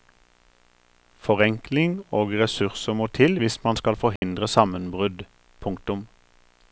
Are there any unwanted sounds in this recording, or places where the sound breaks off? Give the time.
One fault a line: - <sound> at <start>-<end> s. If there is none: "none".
- dropout at 4.2-4.2 s